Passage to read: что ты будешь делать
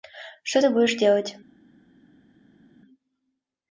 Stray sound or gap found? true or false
false